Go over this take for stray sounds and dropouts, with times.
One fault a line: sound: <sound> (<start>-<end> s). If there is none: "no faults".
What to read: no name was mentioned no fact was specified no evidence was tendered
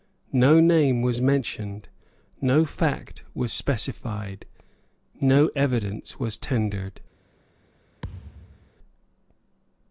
sound: thud (8.0-8.7 s)